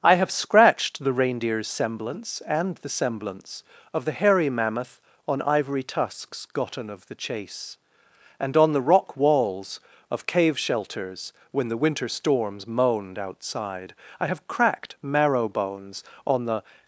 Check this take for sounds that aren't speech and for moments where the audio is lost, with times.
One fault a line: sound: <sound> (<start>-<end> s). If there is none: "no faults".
no faults